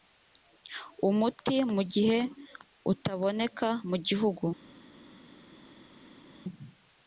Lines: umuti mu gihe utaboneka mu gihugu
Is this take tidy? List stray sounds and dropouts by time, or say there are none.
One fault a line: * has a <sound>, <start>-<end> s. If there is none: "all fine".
all fine